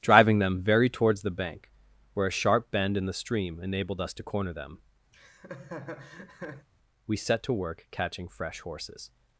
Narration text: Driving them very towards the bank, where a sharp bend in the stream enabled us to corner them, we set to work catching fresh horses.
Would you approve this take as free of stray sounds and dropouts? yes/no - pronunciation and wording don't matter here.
no